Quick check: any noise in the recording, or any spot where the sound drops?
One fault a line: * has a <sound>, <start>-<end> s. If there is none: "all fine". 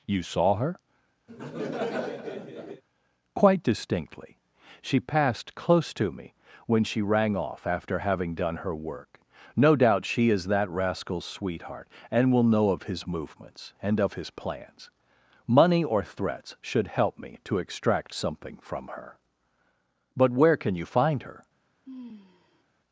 * has a laugh, 1.3-2.8 s
* has a sigh, 21.9-22.6 s